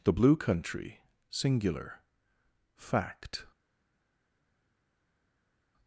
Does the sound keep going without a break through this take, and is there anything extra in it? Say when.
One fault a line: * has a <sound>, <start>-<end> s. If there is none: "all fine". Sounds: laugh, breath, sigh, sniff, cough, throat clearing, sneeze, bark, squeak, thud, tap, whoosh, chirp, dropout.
all fine